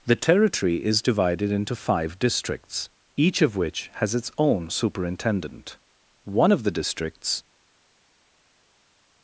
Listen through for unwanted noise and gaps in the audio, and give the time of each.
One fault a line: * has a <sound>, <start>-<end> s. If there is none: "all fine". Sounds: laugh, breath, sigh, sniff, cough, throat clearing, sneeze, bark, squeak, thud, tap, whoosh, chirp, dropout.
all fine